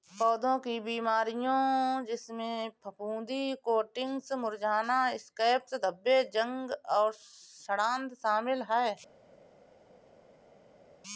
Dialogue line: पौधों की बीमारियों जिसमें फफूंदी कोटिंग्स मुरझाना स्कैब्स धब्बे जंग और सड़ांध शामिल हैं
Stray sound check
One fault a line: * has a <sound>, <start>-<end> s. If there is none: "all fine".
all fine